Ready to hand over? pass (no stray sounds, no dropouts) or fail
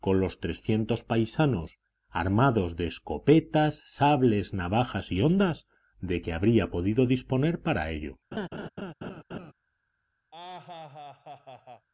fail